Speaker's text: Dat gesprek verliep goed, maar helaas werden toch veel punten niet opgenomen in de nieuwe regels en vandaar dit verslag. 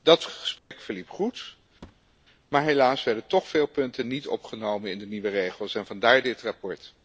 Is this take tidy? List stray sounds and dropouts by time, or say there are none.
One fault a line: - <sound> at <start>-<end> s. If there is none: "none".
- dropout at 0.6-0.7 s
- thud at 1.8-2.1 s